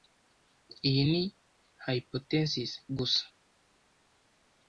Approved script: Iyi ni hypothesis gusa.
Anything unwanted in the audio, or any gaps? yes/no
no